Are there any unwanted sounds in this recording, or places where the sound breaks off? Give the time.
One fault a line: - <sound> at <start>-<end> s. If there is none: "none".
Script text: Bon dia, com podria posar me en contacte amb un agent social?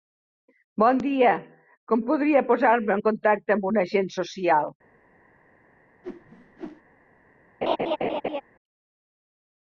- whoosh at 6.0-6.8 s
- laugh at 7.6-8.4 s